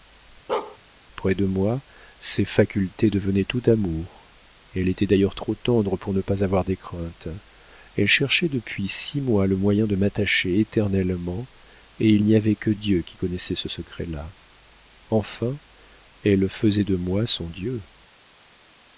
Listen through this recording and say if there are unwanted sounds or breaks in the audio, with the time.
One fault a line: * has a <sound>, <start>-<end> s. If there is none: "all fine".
* has a bark, 0.5-0.8 s